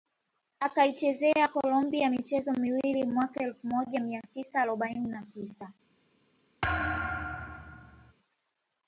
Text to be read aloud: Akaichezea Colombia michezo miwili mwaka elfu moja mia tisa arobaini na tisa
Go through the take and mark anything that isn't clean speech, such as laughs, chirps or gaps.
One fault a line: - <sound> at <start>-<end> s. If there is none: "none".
- thud at 6.6-8.1 s